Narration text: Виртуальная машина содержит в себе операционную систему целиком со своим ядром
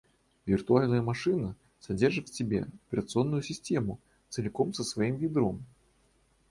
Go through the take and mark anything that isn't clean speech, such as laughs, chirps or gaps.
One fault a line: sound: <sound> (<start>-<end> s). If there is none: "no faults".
no faults